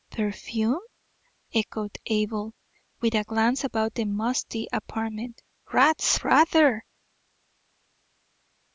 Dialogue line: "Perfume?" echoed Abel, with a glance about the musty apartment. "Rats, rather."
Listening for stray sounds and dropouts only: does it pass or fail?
pass